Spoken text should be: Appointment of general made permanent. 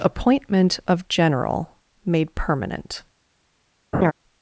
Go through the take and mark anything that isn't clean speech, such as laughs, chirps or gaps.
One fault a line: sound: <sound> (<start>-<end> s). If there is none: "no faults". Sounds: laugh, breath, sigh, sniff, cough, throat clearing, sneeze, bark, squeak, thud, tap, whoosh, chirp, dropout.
sound: laugh (3.9-4.1 s)